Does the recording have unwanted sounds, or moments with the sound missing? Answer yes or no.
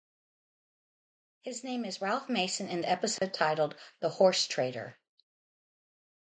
yes